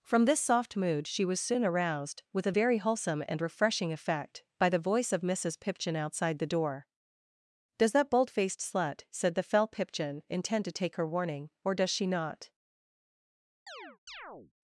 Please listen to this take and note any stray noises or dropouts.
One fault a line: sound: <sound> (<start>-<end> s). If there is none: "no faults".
sound: chirp (13.7-14.5 s)